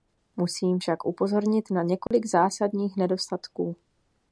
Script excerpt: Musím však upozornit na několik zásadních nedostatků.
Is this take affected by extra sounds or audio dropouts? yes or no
yes